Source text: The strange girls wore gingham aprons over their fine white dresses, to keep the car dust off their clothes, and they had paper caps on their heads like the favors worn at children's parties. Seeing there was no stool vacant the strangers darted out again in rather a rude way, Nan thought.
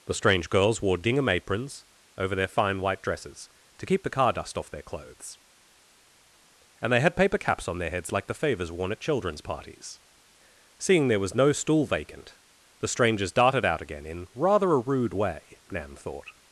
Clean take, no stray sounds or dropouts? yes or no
yes